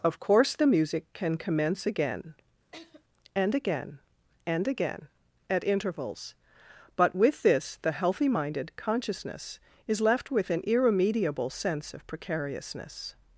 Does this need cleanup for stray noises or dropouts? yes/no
yes